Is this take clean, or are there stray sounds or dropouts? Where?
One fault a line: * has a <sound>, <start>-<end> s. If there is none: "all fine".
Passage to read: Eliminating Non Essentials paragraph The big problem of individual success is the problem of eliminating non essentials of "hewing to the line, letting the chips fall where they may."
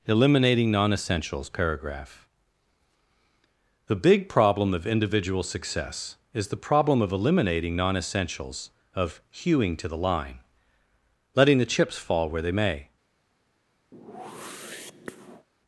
* has a whoosh, 13.9-15.5 s